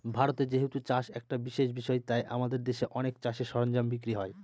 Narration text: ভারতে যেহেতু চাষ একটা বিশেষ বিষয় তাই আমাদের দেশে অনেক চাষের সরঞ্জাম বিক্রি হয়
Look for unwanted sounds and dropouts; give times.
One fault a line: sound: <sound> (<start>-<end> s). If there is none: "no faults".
no faults